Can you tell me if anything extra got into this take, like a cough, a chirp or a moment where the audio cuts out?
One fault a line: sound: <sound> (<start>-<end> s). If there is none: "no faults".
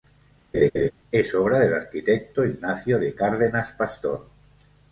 sound: laugh (0.5-0.9 s)